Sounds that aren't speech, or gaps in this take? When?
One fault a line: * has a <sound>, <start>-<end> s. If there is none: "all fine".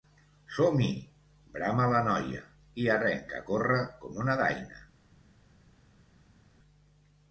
all fine